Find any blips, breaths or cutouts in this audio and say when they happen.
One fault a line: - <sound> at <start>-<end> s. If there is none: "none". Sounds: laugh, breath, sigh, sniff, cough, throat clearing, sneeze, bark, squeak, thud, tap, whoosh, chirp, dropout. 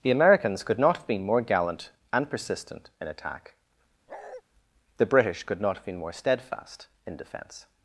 - bark at 4.1-4.4 s